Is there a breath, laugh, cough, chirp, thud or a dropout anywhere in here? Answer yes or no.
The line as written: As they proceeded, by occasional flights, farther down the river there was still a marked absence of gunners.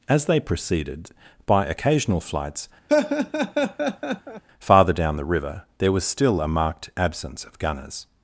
yes